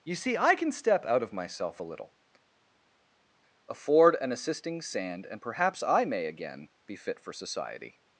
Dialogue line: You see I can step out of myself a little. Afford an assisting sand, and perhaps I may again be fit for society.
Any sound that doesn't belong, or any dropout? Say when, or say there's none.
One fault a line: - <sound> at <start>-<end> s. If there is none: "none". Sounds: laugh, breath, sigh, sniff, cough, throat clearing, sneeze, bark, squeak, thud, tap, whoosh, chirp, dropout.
none